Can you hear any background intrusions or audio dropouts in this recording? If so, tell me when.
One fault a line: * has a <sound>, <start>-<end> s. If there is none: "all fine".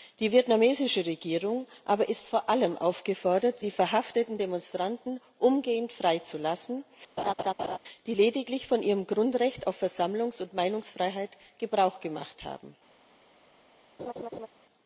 * has a laugh, 7.2-7.8 s
* has a laugh, 14.0-14.5 s